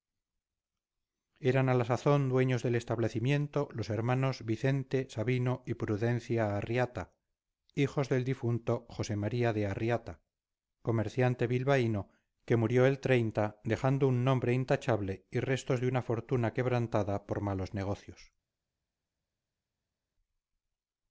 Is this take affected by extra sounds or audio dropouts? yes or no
no